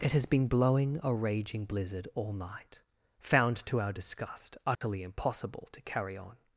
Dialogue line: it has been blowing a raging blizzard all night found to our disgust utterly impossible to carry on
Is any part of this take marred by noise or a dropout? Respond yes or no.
yes